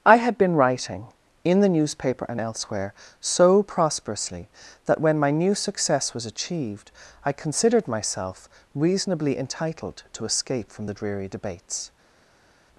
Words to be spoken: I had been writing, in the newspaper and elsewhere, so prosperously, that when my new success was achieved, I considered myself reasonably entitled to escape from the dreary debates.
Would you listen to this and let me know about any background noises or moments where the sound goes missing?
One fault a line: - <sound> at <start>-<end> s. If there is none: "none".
none